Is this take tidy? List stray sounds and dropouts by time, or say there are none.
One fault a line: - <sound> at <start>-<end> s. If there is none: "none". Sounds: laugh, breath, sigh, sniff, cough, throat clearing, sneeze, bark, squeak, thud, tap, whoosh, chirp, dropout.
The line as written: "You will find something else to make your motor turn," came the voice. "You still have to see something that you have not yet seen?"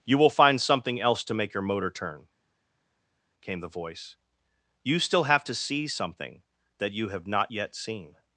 none